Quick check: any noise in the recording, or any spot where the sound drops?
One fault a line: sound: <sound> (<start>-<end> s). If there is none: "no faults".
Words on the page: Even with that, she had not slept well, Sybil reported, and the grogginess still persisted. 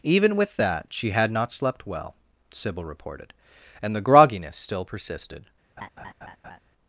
sound: laugh (5.8-6.6 s)